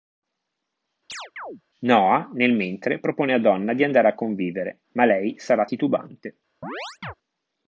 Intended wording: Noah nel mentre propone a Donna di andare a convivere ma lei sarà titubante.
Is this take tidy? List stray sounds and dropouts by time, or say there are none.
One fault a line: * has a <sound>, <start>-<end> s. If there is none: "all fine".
* has a chirp, 1.1-1.6 s
* has a chirp, 6.6-7.1 s